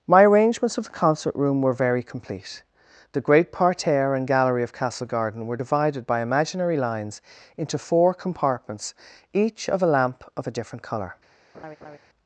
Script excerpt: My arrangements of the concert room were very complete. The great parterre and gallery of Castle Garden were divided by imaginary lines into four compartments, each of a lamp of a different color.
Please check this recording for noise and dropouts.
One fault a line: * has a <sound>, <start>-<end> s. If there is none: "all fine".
* has a laugh, 11.5-12.0 s